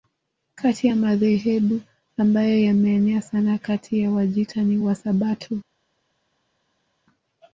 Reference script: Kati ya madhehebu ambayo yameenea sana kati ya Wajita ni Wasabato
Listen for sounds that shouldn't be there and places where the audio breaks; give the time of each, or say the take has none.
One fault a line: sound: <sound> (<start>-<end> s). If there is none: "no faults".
no faults